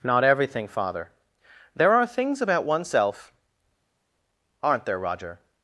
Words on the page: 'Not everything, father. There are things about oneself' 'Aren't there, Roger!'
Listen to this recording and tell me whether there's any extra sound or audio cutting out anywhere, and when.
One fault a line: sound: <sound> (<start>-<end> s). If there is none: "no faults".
no faults